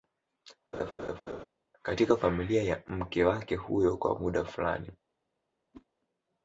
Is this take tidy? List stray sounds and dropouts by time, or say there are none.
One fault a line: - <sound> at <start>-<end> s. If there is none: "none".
- laugh at 0.7-1.4 s
- whoosh at 5.7-5.9 s